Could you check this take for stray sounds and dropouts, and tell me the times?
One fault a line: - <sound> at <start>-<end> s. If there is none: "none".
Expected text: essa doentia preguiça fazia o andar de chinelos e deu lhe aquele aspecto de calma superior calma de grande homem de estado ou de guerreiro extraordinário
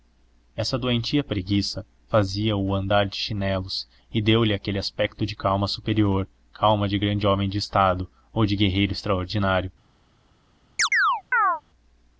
- chirp at 10.8-11.6 s